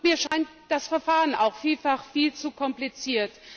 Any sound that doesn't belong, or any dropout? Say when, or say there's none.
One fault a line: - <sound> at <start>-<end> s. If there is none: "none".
- dropout at 0.3-0.3 s